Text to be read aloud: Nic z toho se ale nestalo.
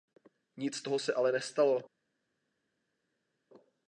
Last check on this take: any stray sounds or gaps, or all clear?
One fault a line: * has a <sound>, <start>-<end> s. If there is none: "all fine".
all fine